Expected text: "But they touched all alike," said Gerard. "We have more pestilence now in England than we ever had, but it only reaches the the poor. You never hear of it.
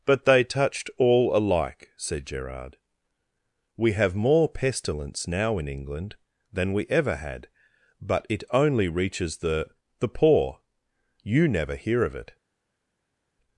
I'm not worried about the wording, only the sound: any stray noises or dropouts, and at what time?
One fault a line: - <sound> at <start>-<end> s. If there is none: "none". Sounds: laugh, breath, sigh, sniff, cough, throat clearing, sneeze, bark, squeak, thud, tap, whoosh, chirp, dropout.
none